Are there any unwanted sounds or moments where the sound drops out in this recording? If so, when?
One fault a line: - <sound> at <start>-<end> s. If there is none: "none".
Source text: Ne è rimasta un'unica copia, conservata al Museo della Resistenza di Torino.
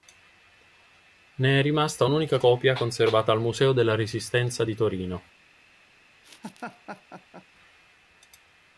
- laugh at 6.2-7.5 s